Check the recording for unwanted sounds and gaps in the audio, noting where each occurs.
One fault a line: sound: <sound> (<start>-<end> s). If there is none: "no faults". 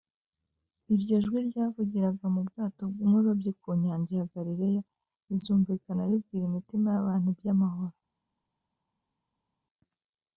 no faults